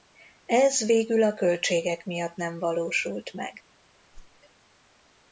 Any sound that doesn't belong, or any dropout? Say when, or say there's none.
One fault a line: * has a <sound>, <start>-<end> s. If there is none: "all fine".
* has a whoosh, 4.1-4.4 s